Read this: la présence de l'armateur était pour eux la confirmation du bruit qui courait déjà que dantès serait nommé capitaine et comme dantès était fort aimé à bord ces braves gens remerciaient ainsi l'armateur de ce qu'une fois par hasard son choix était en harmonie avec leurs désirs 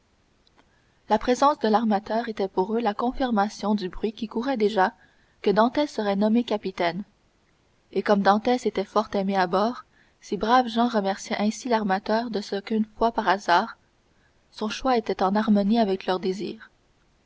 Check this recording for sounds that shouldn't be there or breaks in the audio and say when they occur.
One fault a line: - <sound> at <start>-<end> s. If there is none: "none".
none